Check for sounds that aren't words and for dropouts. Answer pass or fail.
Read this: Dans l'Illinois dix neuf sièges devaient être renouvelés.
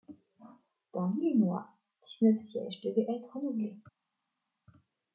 pass